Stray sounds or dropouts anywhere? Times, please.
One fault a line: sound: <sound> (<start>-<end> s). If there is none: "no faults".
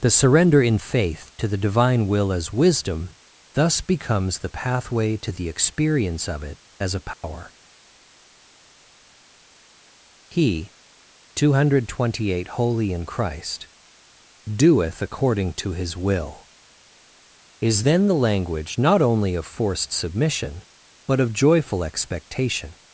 sound: dropout (7.1-7.2 s)